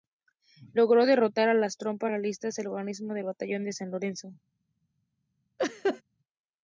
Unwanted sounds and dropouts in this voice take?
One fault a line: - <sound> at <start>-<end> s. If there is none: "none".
- laugh at 5.6-6.0 s